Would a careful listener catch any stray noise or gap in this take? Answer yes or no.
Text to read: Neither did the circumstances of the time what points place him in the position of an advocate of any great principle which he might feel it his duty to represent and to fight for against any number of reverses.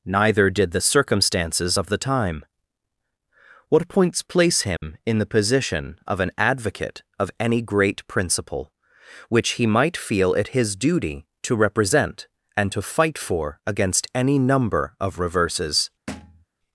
yes